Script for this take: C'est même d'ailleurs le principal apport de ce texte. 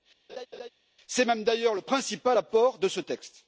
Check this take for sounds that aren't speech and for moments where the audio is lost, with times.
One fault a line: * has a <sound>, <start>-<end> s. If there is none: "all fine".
* has a laugh, 0.3-0.7 s